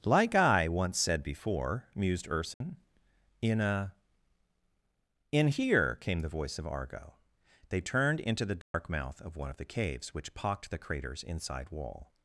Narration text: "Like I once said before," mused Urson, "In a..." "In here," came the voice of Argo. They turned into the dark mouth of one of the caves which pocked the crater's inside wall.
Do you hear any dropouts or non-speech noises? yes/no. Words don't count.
yes